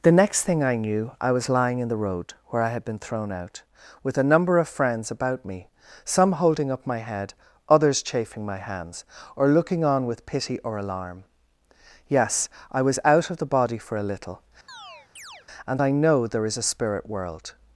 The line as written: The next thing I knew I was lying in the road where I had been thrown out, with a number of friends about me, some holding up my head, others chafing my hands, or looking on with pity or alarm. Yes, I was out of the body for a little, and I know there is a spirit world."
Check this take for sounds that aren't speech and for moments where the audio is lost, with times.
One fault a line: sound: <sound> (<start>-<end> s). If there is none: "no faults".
sound: chirp (14.7-15.5 s)